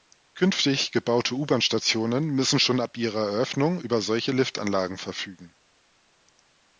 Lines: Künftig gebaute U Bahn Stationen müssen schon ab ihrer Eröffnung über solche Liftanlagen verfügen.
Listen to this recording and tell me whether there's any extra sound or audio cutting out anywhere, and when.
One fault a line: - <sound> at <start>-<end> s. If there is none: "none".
none